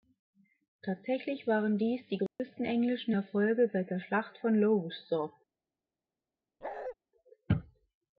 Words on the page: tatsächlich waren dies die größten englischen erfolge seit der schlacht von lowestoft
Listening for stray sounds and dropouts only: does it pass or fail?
fail